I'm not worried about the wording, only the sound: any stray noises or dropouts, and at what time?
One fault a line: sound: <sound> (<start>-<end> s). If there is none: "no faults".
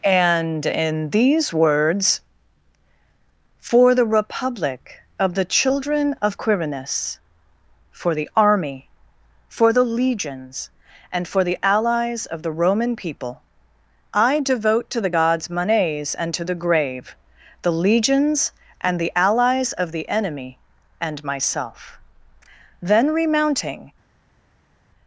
no faults